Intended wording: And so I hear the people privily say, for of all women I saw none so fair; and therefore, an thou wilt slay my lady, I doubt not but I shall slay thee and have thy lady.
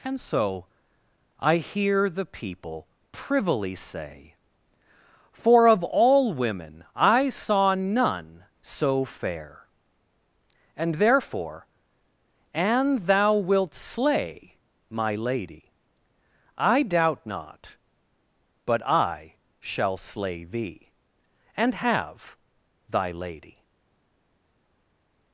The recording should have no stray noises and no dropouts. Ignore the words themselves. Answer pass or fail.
pass